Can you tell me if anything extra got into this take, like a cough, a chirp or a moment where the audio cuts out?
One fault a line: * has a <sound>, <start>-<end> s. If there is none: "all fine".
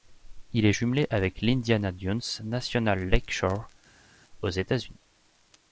all fine